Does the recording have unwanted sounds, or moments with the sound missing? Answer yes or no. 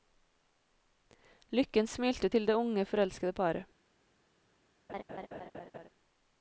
yes